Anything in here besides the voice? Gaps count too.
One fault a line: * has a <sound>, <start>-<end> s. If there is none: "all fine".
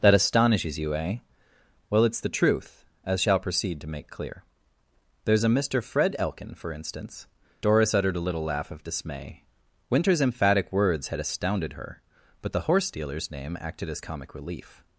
all fine